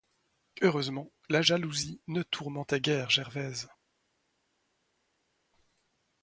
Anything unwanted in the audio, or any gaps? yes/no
no